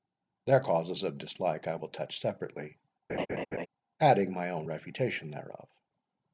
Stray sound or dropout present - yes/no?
yes